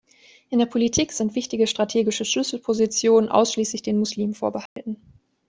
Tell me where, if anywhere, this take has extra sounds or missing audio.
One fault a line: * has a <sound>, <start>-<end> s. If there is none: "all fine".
* has a dropout, 4.7-4.8 s